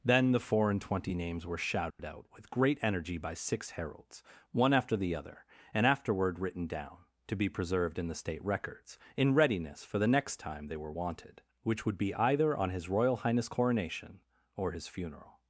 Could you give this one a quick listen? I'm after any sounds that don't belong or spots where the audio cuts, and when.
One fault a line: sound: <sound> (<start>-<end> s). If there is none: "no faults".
sound: dropout (1.9-2.0 s)